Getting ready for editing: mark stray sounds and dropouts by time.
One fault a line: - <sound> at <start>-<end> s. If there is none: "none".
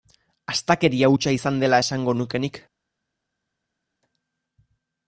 none